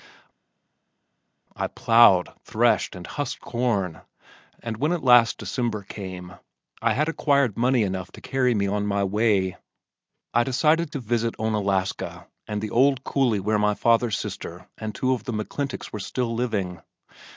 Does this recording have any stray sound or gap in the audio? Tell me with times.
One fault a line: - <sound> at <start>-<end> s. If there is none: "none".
none